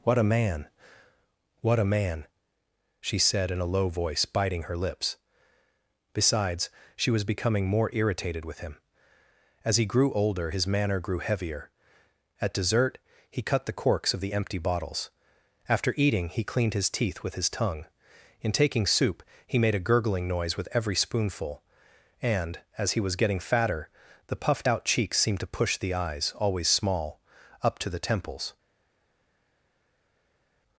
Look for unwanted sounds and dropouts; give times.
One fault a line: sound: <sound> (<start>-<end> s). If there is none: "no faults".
no faults